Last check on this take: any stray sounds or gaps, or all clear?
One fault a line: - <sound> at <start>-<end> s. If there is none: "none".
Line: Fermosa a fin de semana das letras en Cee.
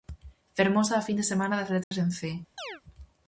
- dropout at 1.8-1.9 s
- chirp at 2.6-2.8 s